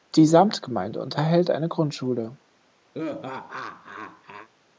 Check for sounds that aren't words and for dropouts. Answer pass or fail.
fail